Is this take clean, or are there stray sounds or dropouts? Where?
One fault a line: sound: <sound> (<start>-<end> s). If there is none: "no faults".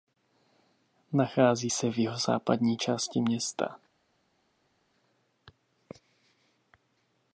no faults